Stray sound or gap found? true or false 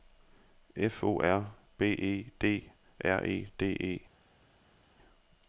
false